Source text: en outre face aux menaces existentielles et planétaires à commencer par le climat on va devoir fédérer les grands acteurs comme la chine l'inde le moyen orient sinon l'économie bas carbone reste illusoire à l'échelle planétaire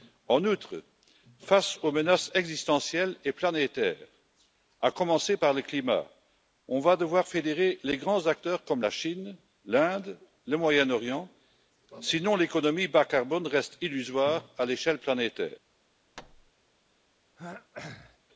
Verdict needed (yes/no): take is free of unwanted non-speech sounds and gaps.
no